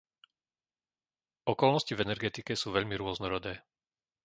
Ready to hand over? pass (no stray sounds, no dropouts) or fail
pass